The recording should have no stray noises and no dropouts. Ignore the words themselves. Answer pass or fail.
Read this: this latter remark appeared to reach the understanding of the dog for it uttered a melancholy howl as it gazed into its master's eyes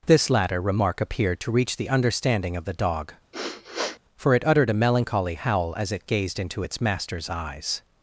fail